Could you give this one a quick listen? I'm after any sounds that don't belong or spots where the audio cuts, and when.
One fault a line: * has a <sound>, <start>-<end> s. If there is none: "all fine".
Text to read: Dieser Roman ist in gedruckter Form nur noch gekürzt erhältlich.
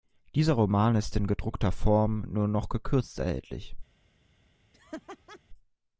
* has a laugh, 4.7-5.4 s